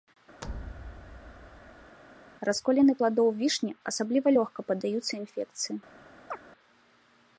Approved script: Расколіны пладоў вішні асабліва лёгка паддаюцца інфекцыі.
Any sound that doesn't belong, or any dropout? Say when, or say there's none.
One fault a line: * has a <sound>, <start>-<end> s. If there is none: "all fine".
* has a thud, 0.4-2.0 s
* has a chirp, 6.3-6.4 s